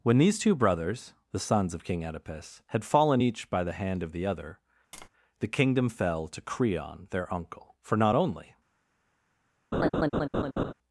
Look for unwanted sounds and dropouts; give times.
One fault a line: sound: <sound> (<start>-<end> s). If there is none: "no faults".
sound: tap (4.9-5.1 s)
sound: laugh (9.7-10.7 s)